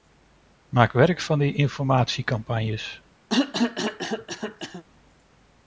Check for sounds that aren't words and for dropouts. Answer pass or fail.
fail